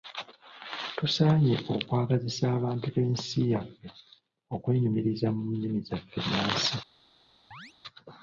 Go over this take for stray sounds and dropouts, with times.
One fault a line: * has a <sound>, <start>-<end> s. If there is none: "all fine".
* has a chirp, 7.5-7.7 s